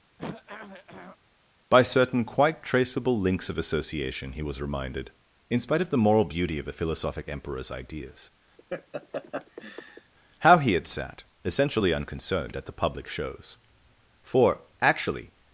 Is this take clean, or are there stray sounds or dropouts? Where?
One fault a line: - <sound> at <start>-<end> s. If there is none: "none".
- throat clearing at 0.2-1.2 s
- laugh at 8.6-10.1 s